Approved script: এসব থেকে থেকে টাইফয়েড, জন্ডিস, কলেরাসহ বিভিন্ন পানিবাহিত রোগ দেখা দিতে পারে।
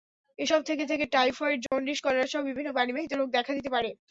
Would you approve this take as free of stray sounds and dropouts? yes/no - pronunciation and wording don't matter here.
no